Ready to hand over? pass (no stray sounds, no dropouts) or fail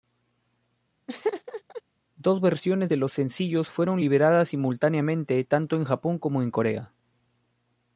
fail